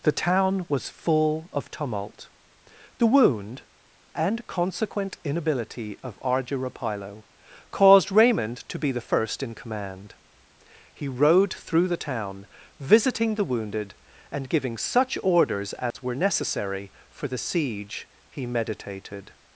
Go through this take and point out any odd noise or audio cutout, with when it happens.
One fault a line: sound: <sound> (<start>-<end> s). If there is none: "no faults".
sound: dropout (15.9-15.9 s)